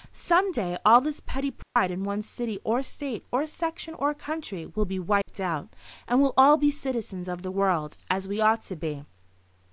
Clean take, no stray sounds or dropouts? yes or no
no